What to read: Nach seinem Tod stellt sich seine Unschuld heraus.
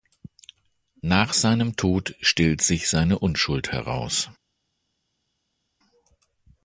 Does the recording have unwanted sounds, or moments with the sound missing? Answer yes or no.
no